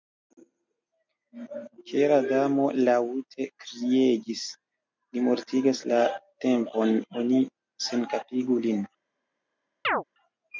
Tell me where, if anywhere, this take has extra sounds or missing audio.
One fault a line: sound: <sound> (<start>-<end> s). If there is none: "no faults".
sound: chirp (9.8-10.0 s)